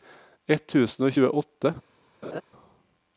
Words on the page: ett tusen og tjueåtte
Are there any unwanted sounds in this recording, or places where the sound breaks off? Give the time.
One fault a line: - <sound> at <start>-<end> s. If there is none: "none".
- laugh at 2.2-2.4 s